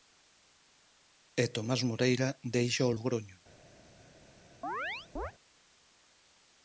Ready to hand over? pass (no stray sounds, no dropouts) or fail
fail